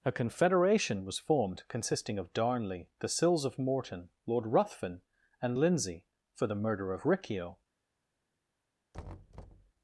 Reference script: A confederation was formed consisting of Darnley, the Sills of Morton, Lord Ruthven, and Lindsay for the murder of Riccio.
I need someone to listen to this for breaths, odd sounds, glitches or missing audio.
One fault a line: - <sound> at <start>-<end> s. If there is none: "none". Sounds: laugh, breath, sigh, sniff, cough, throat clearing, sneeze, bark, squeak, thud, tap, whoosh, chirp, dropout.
- thud at 8.9-9.7 s